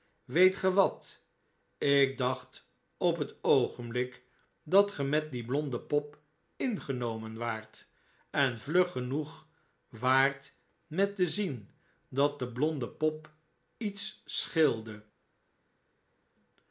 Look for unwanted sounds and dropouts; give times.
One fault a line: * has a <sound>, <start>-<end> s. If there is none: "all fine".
all fine